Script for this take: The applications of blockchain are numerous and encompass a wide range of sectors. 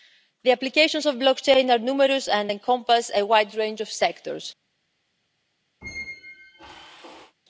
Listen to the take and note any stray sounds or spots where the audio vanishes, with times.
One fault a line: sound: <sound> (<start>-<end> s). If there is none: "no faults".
sound: squeak (5.8-7.3 s)